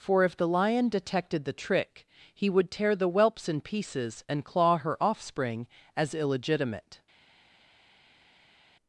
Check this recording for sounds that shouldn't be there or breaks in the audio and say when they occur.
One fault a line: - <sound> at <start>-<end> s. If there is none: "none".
none